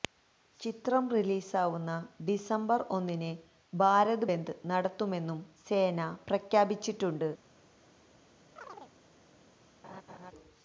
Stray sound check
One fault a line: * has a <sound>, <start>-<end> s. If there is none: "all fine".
* has a chirp, 8.6-8.9 s
* has a laugh, 9.8-10.3 s